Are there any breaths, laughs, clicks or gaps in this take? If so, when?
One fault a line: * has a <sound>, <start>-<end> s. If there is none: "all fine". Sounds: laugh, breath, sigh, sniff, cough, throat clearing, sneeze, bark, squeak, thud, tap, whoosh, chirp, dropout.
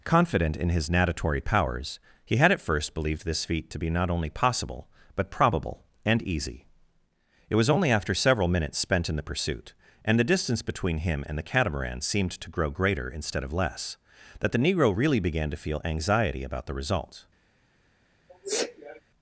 * has a sneeze, 18.3-19.0 s